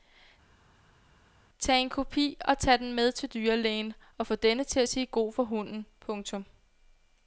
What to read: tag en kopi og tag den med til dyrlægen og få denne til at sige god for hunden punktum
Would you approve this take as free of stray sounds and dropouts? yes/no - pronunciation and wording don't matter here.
yes